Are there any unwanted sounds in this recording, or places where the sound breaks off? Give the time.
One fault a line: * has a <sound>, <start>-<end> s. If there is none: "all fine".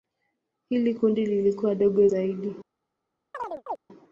* has a chirp, 3.3-3.8 s